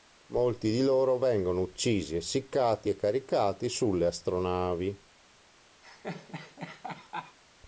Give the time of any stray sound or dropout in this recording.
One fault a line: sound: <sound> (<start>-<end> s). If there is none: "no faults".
sound: laugh (5.8-7.4 s)